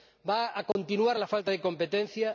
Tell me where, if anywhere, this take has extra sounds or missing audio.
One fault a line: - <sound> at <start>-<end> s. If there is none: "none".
- dropout at 0.7-0.8 s